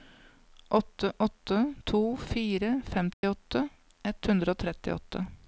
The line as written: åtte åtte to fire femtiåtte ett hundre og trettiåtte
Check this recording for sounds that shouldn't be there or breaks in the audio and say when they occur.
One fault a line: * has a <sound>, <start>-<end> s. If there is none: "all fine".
* has a dropout, 3.1-3.2 s